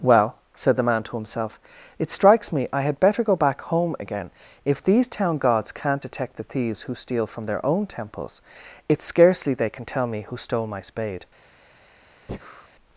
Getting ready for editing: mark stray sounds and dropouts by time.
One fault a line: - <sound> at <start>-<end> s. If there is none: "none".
- breath at 12.3-12.7 s